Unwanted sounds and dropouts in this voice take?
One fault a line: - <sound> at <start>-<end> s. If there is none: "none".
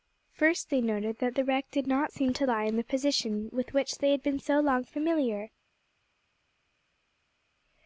none